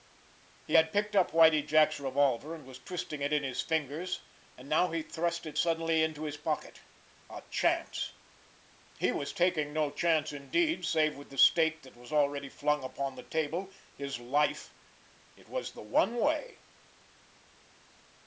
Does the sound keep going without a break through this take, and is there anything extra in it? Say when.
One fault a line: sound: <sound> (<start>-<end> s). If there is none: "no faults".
no faults